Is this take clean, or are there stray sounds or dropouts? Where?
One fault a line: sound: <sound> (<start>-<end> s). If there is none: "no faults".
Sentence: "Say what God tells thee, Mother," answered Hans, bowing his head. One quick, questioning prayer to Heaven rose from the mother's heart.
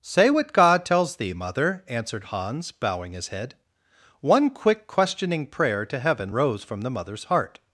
no faults